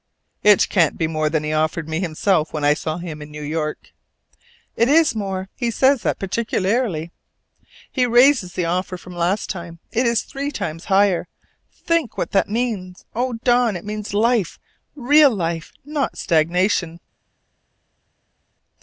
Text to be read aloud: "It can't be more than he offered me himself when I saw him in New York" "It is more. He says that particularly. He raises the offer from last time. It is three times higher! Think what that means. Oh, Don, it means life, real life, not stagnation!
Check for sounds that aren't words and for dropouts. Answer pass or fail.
pass